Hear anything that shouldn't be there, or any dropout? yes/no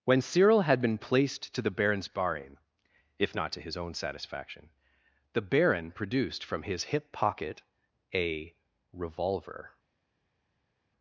no